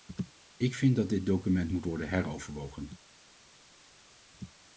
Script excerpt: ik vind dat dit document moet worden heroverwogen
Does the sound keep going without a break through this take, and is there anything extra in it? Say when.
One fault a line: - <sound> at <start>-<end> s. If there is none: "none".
none